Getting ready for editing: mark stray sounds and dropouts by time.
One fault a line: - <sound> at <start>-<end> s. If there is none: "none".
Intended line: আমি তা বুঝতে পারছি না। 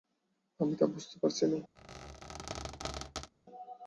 - squeak at 1.8-3.3 s